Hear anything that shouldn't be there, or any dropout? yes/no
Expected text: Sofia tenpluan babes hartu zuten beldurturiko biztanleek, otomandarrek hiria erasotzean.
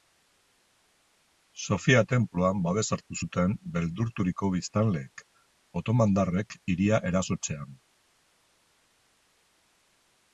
no